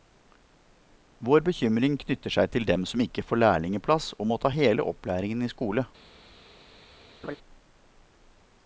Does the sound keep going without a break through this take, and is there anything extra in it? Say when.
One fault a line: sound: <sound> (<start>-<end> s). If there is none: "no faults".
sound: laugh (7.2-7.4 s)